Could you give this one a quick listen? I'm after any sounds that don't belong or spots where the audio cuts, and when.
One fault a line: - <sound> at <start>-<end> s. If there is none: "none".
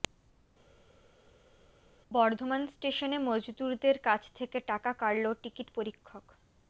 none